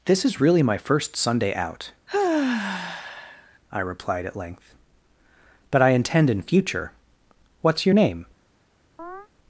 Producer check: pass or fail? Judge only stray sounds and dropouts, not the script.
fail